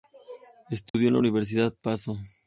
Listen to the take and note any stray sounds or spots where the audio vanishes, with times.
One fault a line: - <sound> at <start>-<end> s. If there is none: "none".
- dropout at 0.9-0.9 s